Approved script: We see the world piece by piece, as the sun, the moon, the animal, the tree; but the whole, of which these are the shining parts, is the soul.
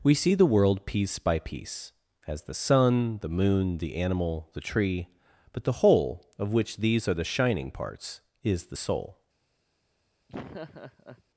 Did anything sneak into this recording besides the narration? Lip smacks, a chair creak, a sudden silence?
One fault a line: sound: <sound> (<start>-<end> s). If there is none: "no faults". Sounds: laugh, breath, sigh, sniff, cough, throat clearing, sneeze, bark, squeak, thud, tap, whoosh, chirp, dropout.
sound: laugh (10.3-11.2 s)